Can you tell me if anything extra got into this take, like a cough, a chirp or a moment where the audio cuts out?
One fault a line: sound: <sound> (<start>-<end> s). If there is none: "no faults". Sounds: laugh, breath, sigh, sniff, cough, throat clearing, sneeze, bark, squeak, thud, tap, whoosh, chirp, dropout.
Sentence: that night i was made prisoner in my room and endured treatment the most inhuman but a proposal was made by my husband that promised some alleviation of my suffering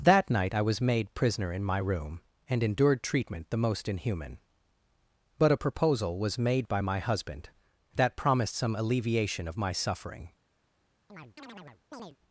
sound: chirp (11.1-12.2 s)